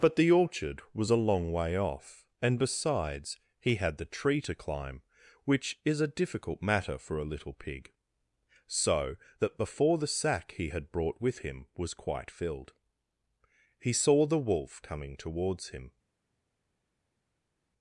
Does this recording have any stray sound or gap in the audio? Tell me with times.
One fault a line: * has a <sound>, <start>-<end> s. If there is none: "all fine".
all fine